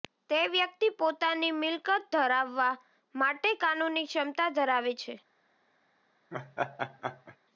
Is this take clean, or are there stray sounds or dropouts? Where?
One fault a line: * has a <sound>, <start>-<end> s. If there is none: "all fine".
* has a laugh, 6.3-7.4 s